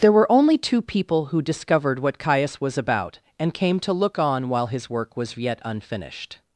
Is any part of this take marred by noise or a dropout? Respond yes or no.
no